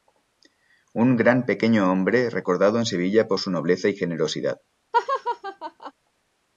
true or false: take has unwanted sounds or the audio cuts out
true